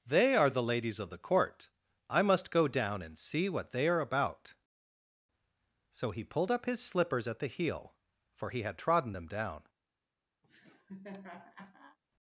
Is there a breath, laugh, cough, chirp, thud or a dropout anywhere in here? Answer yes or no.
yes